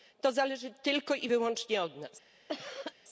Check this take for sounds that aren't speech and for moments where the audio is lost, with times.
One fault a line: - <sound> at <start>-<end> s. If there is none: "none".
- cough at 2.5-2.9 s